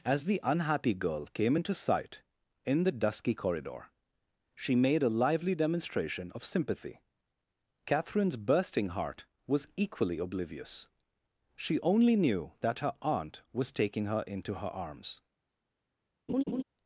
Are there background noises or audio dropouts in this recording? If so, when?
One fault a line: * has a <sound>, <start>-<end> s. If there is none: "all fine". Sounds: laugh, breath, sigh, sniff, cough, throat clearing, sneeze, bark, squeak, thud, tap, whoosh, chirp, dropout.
* has a laugh, 16.3-16.6 s